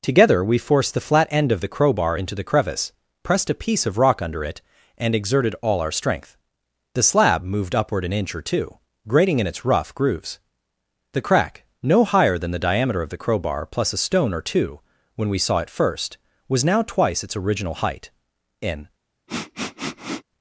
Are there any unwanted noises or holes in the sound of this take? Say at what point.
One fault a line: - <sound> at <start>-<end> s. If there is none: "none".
- sniff at 19.3-20.2 s